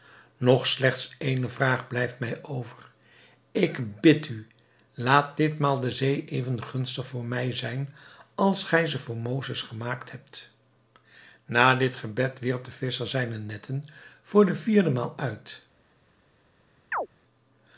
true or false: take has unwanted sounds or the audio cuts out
true